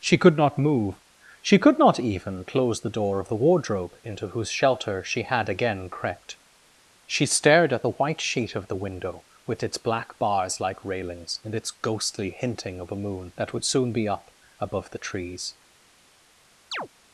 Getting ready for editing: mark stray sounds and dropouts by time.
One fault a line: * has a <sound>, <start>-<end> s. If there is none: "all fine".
* has a chirp, 16.7-16.9 s